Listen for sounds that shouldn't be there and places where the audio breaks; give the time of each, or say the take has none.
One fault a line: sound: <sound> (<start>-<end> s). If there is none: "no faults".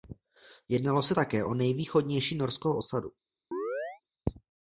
sound: chirp (3.5-4.0 s)